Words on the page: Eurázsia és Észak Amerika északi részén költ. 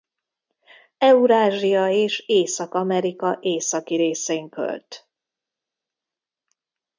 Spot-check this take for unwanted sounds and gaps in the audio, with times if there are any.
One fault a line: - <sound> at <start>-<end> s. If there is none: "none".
none